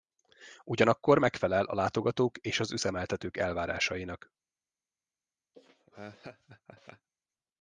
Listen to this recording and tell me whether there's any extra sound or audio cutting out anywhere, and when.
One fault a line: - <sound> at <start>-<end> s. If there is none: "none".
- laugh at 5.5-7.1 s